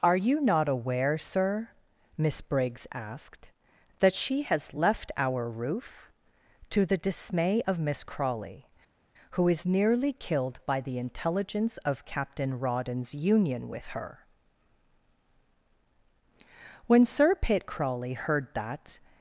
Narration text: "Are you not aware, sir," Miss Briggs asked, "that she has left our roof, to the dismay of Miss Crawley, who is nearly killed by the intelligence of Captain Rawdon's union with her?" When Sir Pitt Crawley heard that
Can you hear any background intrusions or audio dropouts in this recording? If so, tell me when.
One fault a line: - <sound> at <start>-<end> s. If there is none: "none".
none